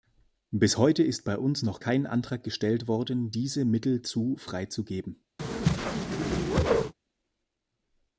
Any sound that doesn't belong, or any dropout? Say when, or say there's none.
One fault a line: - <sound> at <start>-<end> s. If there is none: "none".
- whoosh at 5.4-6.9 s